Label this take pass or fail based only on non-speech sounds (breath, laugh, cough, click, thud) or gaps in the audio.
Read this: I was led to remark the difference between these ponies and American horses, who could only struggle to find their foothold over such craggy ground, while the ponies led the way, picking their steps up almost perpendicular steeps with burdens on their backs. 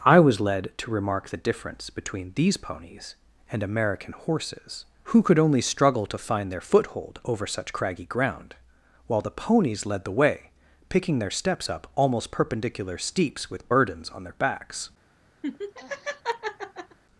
fail